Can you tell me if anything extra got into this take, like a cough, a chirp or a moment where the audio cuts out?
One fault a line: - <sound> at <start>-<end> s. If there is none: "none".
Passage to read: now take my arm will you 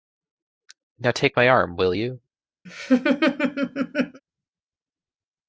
- laugh at 2.7-4.2 s